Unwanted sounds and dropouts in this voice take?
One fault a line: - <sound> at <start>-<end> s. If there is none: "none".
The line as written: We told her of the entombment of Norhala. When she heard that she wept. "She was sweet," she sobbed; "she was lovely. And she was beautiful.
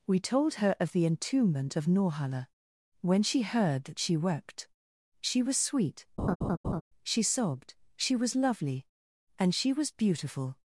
- laugh at 6.2-6.8 s